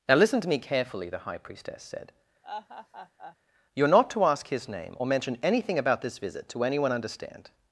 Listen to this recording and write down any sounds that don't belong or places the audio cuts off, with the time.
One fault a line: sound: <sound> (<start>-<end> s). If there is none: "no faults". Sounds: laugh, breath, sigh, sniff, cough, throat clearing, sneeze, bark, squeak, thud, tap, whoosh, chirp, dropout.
sound: laugh (2.4-3.4 s)